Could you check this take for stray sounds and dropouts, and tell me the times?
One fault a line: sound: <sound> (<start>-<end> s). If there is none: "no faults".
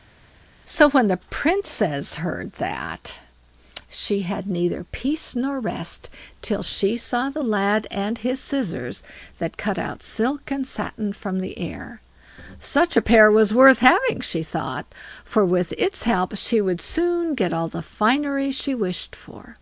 no faults